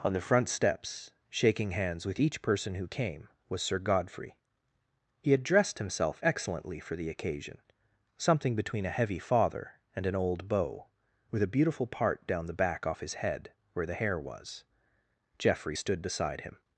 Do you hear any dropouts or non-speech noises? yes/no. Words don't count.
no